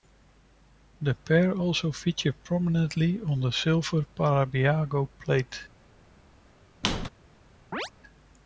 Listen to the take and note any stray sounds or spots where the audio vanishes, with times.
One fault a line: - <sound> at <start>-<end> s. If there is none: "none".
- squeak at 6.8-7.1 s
- chirp at 7.7-7.9 s